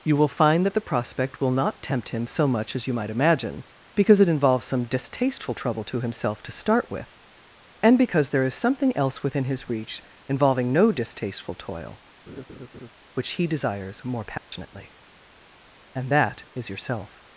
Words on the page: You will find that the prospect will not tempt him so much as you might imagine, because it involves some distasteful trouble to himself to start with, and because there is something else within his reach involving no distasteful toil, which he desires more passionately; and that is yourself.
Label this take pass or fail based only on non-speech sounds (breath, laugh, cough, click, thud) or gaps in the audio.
fail